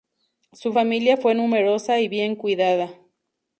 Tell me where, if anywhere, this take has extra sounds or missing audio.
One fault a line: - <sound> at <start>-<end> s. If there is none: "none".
none